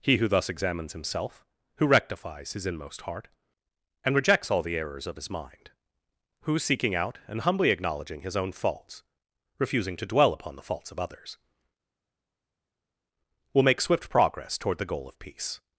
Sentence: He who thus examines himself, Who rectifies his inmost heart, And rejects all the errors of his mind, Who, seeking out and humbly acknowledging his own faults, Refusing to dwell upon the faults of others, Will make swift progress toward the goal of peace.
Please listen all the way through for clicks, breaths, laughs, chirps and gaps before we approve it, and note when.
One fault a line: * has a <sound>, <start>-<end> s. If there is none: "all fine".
all fine